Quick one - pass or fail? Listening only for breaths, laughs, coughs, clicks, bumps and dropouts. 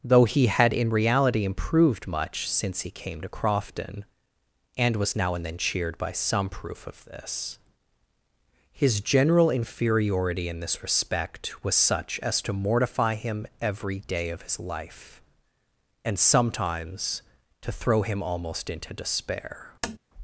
fail